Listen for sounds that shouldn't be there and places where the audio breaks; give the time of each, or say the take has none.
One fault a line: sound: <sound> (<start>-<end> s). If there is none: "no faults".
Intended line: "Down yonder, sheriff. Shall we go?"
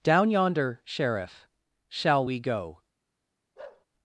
sound: bark (3.6-3.9 s)